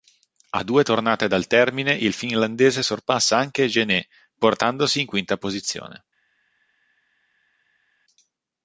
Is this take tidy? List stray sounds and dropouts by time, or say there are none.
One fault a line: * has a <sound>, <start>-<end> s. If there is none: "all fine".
all fine